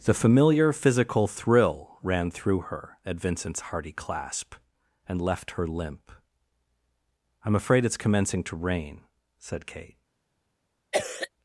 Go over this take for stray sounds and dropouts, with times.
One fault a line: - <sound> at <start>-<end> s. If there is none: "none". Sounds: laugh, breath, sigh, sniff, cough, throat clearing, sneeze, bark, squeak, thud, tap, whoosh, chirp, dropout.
- cough at 10.9-11.3 s